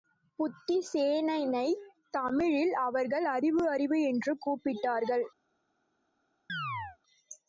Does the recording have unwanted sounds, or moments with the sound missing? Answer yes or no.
yes